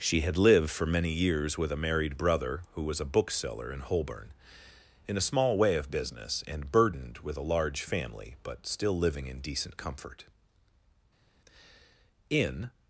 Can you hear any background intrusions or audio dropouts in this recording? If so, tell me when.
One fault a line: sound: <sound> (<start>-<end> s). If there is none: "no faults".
no faults